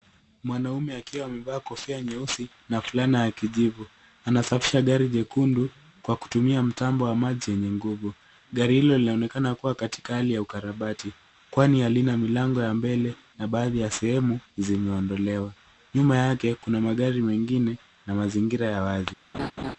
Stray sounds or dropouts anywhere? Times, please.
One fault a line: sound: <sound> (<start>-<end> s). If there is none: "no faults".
sound: laugh (19.3-19.8 s)